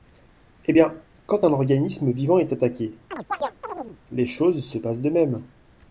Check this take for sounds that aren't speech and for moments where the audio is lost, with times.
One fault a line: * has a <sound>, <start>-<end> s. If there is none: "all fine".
* has a chirp, 3.1-4.0 s